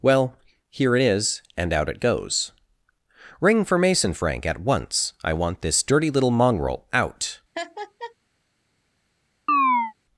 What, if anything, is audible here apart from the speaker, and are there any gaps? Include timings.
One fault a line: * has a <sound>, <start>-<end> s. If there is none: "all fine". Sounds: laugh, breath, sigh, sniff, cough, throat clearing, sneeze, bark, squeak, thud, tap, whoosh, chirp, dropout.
* has a laugh, 7.5-8.1 s
* has a chirp, 9.5-9.9 s